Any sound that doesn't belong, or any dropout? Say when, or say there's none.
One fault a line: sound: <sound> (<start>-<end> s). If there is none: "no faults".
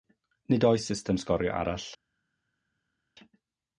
no faults